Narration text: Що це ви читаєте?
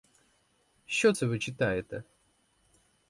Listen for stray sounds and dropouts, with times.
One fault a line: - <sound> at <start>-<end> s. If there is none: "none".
none